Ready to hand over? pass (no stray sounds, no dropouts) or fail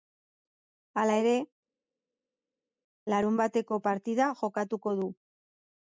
pass